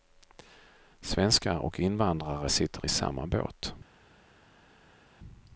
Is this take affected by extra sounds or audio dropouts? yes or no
no